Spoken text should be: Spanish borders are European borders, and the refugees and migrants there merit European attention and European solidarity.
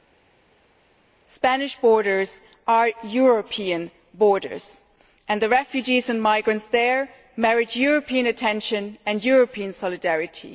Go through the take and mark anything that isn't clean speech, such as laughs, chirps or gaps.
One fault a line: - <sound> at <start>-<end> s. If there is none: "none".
none